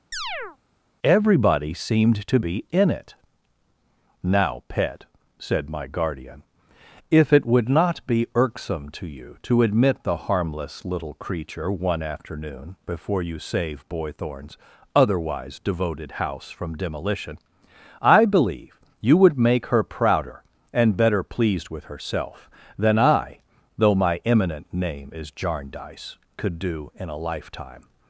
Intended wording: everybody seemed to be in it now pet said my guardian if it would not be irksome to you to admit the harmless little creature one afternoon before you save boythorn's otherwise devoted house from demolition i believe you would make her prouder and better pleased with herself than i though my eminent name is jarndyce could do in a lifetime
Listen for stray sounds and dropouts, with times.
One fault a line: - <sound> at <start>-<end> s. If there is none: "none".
- chirp at 0.1-0.6 s